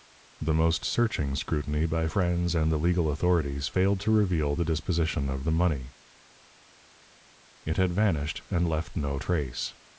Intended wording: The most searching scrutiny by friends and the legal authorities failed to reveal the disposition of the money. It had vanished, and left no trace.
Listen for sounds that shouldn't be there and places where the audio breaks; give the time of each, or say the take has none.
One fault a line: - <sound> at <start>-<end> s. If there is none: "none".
none